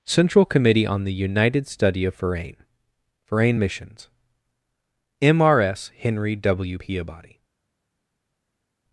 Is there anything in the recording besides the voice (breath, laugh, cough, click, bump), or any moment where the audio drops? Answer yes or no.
no